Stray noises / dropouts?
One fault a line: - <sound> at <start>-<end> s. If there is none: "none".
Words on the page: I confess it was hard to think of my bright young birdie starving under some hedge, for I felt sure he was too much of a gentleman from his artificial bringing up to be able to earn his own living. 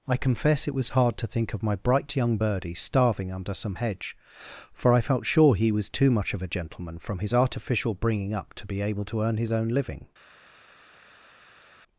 none